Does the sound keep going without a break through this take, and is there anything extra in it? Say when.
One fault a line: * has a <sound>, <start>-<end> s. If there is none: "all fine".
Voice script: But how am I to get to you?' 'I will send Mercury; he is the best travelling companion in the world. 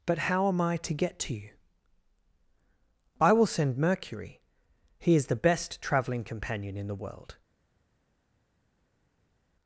all fine